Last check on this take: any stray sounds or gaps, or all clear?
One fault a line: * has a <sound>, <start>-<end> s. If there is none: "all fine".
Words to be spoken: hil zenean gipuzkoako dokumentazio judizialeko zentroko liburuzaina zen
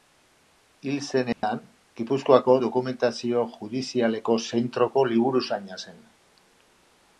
* has a dropout, 1.3-1.4 s